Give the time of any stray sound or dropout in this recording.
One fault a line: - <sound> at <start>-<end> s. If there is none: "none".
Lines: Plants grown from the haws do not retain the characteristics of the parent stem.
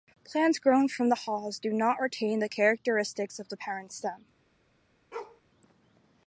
- bark at 5.1-5.4 s